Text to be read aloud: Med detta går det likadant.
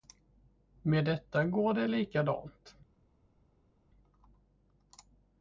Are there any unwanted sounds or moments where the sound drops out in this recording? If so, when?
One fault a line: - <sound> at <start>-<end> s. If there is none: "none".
none